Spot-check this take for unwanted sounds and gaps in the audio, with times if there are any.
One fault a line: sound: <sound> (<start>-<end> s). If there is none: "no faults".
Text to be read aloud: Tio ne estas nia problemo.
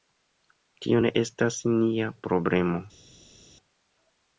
no faults